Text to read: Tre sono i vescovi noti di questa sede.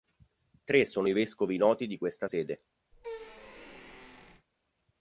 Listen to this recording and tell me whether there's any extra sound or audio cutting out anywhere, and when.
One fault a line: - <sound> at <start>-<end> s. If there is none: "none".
- squeak at 2.9-4.5 s